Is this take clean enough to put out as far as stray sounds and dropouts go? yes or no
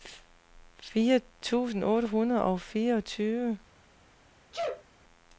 no